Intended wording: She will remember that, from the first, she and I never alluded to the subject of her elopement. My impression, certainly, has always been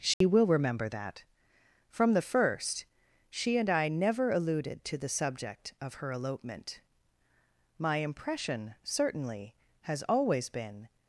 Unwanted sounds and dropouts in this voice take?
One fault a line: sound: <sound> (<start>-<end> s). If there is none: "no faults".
sound: dropout (0.1-0.2 s)